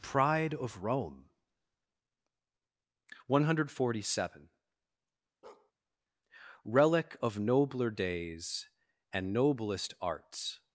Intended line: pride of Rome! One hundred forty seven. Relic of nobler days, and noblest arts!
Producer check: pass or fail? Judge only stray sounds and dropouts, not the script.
fail